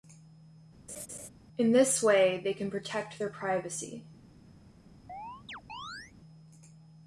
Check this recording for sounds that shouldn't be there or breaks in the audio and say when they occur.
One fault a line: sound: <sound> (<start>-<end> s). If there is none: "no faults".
sound: laugh (0.9-1.3 s)
sound: chirp (5.1-6.1 s)